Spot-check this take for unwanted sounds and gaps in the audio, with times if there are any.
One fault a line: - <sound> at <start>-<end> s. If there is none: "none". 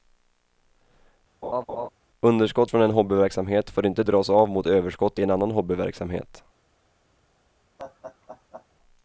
- laugh at 1.4-1.9 s
- laugh at 7.8-8.7 s